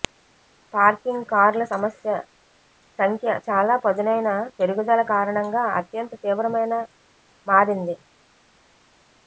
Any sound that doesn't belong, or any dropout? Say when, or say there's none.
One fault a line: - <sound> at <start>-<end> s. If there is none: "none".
none